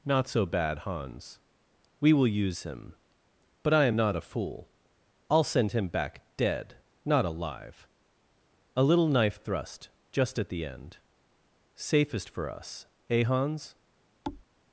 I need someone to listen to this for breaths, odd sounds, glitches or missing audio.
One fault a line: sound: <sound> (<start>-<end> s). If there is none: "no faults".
sound: thud (14.2-14.4 s)